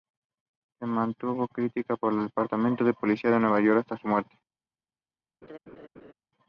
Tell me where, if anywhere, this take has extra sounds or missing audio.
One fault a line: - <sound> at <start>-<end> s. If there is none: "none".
- laugh at 5.4-6.1 s